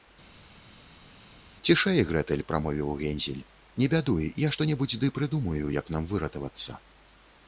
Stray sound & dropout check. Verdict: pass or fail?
pass